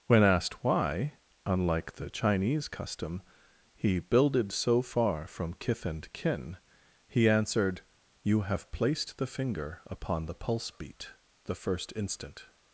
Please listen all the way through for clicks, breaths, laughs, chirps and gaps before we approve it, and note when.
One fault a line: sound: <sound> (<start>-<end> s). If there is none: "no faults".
no faults